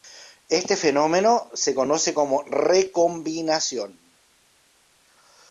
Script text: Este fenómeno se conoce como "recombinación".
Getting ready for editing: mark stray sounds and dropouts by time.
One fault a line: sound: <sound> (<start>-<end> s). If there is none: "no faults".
no faults